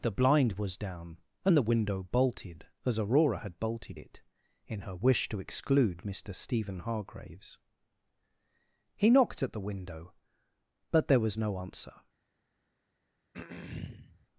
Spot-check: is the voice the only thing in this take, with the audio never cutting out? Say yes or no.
no